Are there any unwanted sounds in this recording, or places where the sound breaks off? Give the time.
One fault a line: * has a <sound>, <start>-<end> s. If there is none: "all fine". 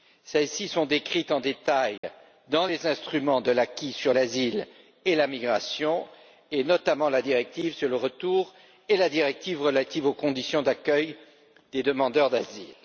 * has a dropout, 2.0-2.0 s